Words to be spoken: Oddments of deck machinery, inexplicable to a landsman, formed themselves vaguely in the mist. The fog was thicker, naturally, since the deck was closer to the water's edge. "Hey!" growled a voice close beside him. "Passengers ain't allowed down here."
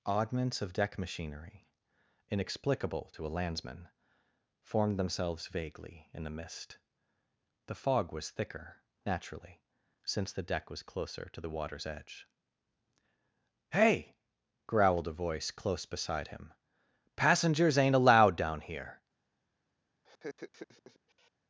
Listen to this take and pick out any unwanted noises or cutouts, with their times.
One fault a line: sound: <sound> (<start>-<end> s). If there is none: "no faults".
sound: laugh (20.0-21.3 s)